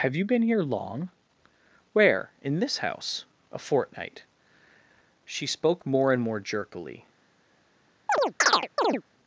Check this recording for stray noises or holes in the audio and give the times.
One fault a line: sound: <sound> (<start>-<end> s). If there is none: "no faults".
sound: chirp (8.1-9.0 s)